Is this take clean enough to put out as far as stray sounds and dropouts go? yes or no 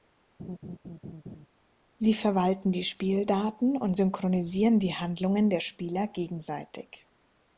no